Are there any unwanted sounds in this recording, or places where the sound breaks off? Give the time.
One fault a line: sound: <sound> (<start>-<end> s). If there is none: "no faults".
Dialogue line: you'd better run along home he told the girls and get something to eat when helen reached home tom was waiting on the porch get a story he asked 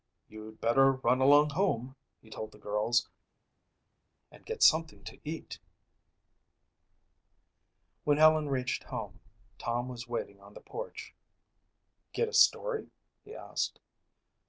no faults